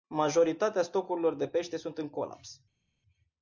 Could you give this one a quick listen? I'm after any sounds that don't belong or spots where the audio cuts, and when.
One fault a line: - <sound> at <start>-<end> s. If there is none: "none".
none